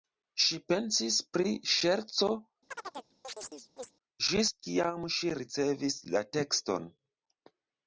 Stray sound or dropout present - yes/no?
yes